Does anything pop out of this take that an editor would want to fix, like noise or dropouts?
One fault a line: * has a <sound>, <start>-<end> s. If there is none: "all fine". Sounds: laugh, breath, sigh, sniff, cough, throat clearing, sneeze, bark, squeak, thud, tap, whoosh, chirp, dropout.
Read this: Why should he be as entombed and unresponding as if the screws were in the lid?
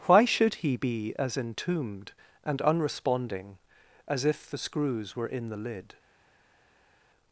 all fine